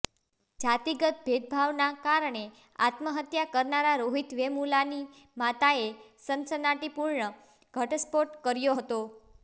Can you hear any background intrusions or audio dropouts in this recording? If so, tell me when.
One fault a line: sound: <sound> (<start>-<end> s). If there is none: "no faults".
no faults